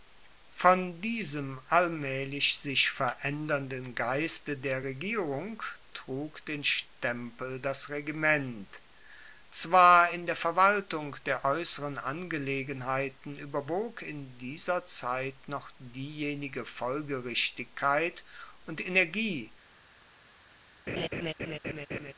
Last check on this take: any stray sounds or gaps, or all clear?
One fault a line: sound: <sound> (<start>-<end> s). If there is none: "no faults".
sound: laugh (20.9-22.1 s)